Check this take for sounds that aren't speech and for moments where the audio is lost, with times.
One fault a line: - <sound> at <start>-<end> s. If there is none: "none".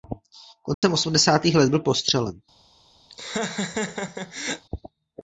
- dropout at 0.7-0.8 s
- laugh at 3.1-4.7 s